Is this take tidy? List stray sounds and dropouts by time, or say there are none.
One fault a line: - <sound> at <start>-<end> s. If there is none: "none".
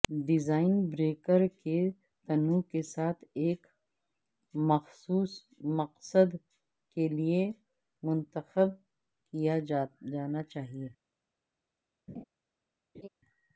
- laugh at 12.1-12.2 s
- laugh at 12.9-13.1 s